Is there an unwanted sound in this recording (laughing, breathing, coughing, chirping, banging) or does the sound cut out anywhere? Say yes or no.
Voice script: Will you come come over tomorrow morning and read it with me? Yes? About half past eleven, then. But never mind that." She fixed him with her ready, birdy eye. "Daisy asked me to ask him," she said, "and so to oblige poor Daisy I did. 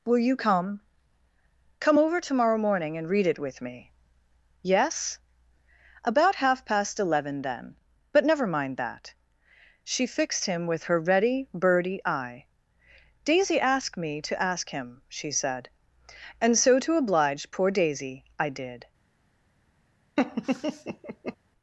yes